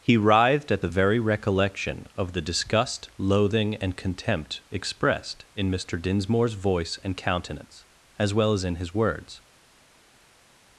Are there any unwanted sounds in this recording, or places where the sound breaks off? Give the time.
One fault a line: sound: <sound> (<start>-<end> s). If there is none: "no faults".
no faults